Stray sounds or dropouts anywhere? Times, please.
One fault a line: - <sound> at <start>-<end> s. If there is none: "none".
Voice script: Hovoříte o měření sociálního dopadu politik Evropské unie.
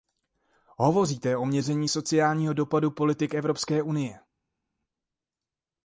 none